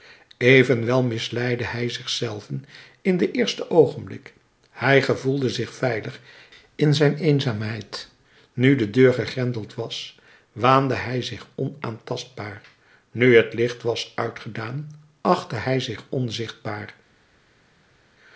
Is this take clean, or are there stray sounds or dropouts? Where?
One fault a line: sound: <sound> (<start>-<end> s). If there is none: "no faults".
no faults